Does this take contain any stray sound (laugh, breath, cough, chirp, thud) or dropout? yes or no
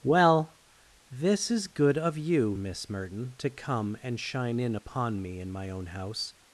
no